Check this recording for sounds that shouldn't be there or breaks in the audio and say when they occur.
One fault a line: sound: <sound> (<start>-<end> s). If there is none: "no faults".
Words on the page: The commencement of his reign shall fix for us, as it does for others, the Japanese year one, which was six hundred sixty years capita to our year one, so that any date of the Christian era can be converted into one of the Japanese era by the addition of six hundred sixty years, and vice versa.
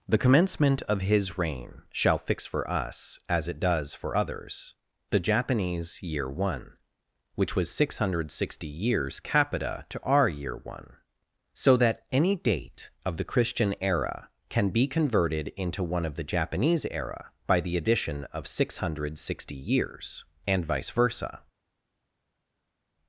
no faults